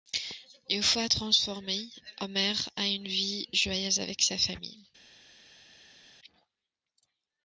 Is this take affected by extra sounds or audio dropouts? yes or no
no